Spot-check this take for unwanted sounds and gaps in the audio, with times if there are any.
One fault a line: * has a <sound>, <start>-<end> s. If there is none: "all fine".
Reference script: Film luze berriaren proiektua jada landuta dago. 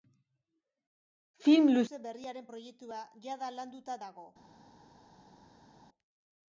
all fine